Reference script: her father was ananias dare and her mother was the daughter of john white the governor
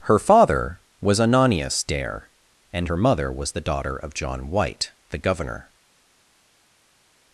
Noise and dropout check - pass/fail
pass